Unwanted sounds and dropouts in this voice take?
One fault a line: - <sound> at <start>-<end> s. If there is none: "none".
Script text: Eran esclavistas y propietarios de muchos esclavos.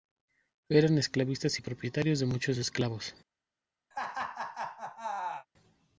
- laugh at 3.9-5.5 s